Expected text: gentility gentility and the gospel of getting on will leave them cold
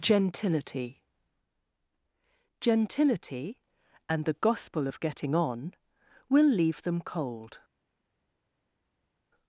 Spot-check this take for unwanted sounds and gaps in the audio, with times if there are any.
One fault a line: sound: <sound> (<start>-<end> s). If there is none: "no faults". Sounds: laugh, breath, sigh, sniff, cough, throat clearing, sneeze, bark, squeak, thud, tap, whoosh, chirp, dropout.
no faults